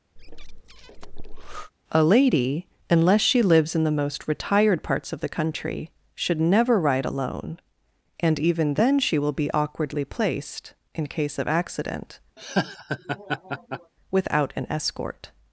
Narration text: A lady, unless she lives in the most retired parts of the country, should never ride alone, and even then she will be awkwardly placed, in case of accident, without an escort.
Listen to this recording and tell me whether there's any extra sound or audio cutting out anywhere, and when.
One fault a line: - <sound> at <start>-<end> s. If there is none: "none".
- breath at 0.2-1.7 s
- laugh at 12.4-13.9 s